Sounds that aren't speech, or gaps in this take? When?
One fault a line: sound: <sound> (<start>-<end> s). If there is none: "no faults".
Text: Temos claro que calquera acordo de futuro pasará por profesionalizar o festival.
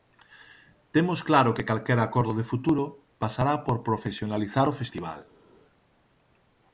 no faults